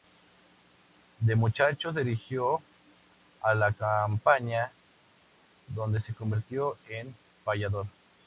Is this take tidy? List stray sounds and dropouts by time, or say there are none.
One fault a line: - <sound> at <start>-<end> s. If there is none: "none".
none